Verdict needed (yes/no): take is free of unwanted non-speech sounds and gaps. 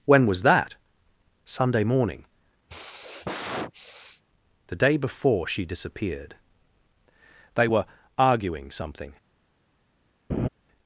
no